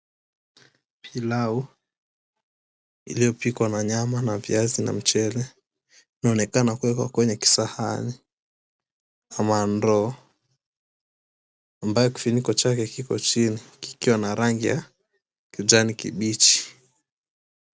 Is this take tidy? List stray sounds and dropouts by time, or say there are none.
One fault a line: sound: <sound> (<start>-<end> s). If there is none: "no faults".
no faults